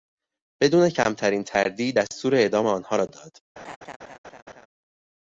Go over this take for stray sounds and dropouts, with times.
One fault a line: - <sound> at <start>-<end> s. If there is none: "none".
- laugh at 3.6-4.7 s